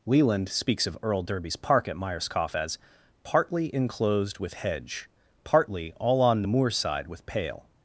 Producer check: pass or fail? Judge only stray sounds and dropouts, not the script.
pass